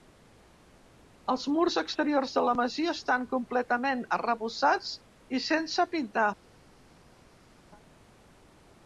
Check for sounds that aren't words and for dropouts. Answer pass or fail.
pass